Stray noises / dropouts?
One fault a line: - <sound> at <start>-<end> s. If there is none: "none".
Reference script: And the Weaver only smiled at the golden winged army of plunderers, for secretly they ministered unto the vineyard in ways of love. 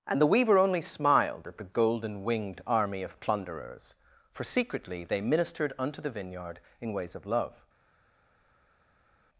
none